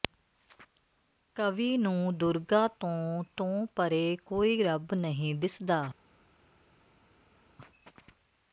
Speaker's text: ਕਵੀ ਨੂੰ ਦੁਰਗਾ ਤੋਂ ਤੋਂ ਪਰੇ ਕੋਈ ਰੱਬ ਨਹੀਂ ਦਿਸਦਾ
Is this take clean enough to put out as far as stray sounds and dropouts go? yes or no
yes